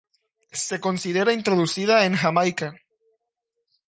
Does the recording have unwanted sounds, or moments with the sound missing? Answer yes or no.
no